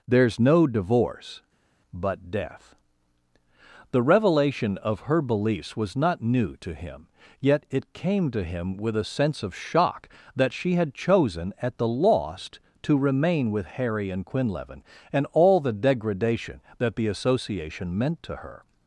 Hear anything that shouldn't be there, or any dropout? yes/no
no